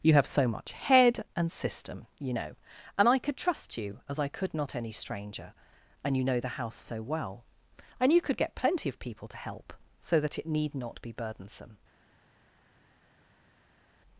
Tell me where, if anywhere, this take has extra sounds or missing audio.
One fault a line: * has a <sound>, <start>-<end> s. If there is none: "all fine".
all fine